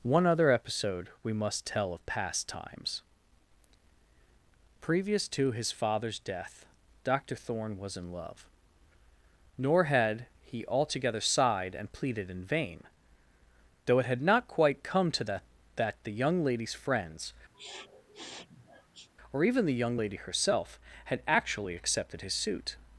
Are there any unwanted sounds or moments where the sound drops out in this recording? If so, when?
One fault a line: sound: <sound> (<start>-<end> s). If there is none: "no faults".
sound: sniff (17.5-19.1 s)